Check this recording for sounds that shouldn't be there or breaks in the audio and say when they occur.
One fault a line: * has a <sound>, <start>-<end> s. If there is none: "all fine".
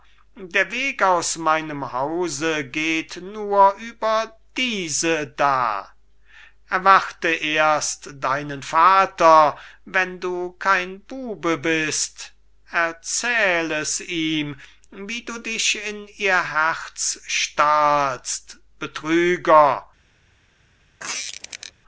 * has a squeak, 21.0-21.7 s